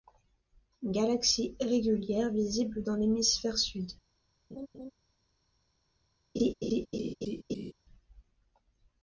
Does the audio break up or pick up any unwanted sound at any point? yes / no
yes